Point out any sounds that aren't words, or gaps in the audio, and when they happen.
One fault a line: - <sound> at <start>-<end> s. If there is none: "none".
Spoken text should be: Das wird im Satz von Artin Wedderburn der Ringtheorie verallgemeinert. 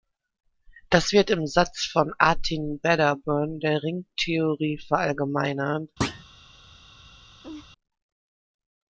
- thud at 6.0-6.2 s
- laugh at 7.4-7.7 s